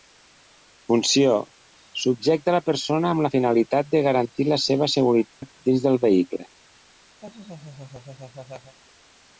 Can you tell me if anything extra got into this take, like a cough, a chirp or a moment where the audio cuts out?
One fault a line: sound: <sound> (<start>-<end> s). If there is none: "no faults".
sound: dropout (5.3-5.4 s)
sound: laugh (7.2-8.8 s)